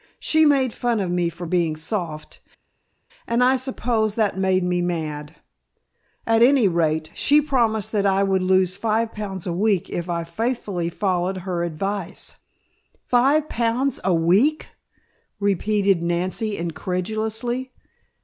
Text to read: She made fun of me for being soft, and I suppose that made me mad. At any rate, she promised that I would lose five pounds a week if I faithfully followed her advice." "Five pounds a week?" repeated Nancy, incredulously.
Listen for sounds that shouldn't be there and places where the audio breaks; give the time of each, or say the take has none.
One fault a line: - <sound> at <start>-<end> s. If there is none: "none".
none